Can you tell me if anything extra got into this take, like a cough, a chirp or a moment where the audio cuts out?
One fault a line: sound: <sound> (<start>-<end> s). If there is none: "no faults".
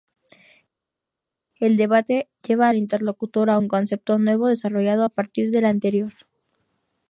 no faults